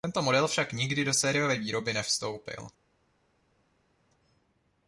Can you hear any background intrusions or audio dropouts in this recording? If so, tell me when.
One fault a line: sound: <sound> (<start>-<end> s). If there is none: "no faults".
no faults